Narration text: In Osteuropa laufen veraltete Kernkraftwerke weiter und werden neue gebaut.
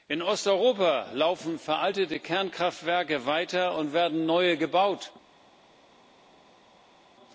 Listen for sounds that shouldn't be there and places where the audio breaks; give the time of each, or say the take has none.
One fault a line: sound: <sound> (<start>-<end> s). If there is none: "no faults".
no faults